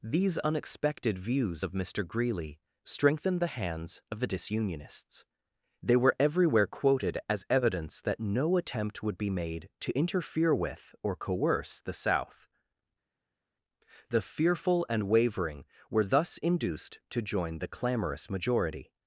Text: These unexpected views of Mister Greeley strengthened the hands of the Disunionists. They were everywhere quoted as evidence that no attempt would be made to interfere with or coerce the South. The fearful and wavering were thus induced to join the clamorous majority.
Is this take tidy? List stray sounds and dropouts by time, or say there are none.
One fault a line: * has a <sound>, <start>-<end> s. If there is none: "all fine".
all fine